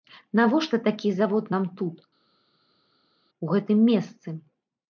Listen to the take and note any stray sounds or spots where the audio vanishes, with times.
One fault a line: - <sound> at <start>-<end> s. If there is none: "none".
none